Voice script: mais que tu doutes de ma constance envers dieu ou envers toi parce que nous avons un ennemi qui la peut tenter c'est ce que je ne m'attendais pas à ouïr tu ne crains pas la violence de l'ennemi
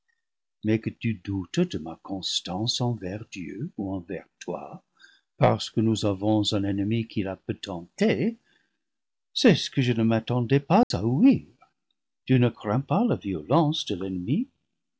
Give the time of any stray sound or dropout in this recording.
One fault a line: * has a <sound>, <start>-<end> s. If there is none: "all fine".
* has a dropout, 10.8-10.9 s